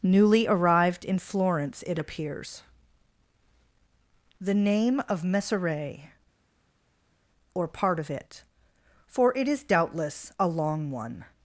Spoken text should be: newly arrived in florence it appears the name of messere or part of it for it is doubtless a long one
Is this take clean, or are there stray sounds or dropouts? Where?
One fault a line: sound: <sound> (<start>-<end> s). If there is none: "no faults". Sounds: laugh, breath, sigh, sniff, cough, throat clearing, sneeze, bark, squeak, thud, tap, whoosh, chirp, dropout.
no faults